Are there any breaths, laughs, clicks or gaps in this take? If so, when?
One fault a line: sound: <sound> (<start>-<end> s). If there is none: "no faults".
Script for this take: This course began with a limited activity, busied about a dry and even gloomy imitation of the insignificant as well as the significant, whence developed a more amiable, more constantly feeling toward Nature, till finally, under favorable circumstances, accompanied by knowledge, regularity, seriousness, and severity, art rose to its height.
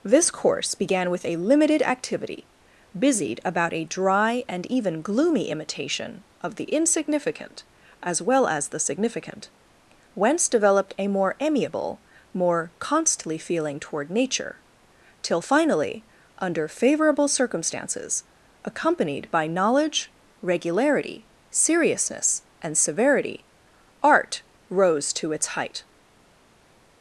no faults